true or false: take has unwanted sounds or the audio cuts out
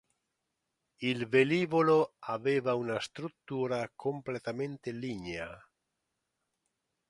false